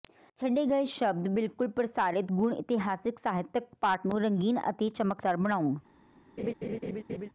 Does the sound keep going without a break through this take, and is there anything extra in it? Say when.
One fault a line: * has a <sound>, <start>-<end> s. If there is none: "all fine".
* has a laugh, 6.4-7.3 s